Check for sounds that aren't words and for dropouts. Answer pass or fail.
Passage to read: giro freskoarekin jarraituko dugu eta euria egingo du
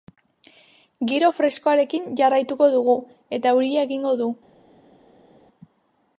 pass